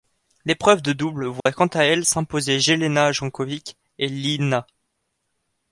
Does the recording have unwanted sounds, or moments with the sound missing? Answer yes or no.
yes